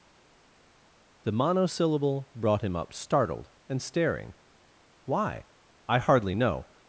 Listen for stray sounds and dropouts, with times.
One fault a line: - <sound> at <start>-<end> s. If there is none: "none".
none